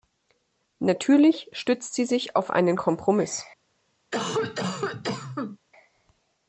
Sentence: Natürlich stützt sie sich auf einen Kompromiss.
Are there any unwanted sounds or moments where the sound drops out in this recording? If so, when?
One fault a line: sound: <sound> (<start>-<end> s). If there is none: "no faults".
sound: cough (4.1-5.6 s)